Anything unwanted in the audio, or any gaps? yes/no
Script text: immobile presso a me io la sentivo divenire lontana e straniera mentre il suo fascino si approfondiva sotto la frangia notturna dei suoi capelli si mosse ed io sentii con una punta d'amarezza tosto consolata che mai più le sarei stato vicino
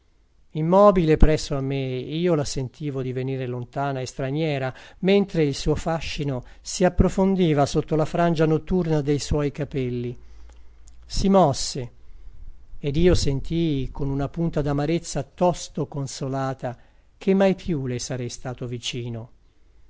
no